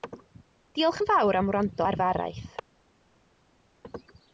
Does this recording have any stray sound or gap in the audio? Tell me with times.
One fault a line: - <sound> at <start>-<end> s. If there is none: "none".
none